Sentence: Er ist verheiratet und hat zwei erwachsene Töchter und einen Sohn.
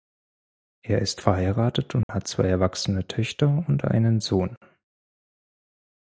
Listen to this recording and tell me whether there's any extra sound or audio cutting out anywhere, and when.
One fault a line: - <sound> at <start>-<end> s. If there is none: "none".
- dropout at 2.0-2.1 s